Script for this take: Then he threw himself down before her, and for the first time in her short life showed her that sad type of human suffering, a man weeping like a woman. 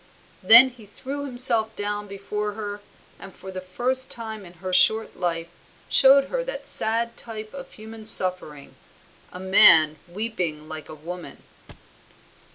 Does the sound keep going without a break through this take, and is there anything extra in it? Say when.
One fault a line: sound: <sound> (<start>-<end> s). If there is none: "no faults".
sound: thud (11.7-11.9 s)